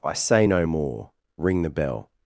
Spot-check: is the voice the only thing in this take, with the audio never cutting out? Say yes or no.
yes